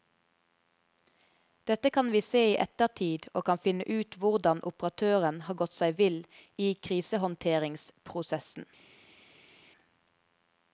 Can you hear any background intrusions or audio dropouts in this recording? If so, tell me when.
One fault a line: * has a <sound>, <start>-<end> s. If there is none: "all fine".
all fine